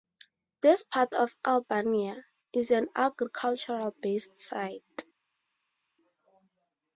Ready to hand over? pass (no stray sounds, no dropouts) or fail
pass